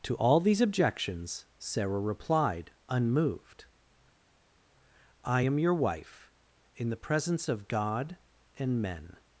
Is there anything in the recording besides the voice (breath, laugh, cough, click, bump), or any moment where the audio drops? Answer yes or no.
no